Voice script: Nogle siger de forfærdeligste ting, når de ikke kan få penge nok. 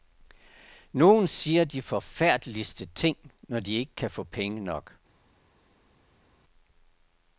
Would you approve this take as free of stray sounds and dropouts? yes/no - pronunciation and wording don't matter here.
yes